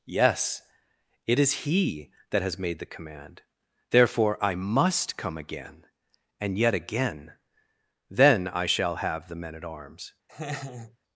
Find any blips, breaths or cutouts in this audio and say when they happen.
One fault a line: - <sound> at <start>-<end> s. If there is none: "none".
- laugh at 10.3-11.0 s